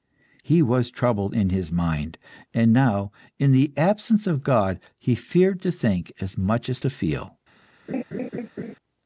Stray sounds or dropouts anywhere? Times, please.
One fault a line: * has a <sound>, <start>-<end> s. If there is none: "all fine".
* has a laugh, 7.9-8.8 s